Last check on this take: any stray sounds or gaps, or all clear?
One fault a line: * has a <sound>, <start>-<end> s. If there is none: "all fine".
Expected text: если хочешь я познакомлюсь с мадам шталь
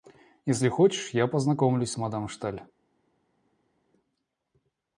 all fine